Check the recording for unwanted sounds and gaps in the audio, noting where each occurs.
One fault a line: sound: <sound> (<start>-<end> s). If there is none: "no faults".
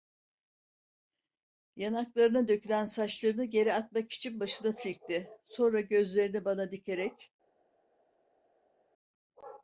no faults